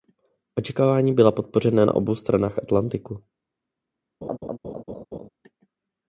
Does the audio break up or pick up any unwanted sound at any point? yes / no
yes